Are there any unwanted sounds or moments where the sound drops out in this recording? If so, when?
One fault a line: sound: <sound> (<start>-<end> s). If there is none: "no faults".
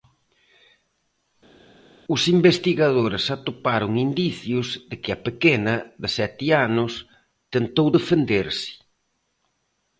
no faults